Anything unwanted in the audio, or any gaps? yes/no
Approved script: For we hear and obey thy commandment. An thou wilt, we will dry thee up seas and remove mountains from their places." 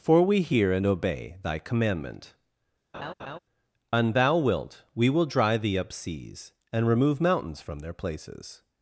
yes